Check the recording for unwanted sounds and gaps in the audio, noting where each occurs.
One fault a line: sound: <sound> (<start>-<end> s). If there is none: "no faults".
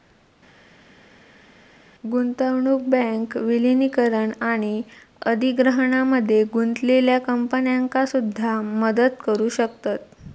no faults